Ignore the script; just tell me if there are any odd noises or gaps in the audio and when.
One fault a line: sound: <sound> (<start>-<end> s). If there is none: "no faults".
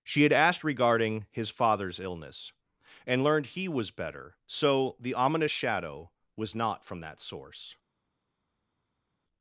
no faults